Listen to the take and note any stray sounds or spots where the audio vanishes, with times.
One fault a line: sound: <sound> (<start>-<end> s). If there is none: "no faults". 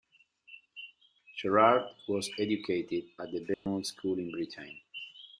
sound: dropout (3.5-3.7 s)